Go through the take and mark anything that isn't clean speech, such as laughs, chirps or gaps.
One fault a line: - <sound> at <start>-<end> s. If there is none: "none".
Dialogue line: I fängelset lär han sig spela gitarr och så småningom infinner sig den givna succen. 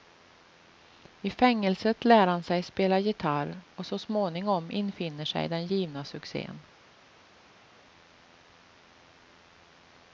none